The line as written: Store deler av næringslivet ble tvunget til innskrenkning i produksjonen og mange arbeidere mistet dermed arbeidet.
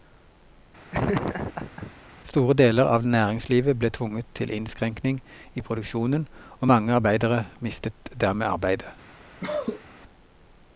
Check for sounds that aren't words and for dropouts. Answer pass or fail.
fail